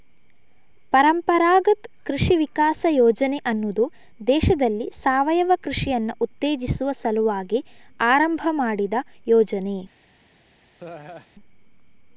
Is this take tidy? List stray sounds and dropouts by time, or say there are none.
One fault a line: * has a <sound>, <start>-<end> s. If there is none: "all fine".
* has a laugh, 10.8-11.3 s